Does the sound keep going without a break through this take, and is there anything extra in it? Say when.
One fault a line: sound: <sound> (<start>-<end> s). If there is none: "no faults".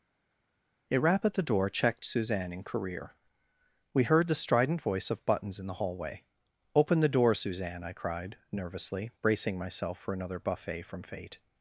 no faults